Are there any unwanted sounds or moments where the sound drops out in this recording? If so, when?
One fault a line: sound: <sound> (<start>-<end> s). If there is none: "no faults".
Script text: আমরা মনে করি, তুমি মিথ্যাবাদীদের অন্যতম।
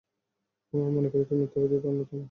no faults